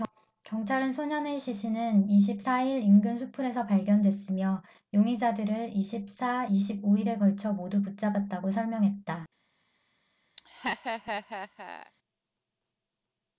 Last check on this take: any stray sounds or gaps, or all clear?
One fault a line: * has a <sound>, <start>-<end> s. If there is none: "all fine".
* has a laugh, 10.4-11.9 s